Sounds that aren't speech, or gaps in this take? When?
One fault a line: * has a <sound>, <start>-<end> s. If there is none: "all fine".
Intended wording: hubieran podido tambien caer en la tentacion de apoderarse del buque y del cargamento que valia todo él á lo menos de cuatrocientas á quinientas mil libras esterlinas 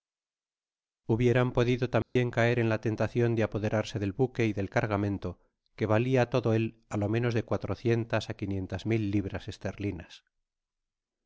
* has a dropout, 2.0-2.2 s